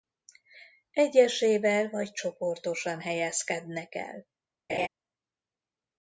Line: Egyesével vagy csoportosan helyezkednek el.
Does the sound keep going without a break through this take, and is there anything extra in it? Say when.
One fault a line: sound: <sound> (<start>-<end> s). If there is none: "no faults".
sound: laugh (4.7-4.9 s)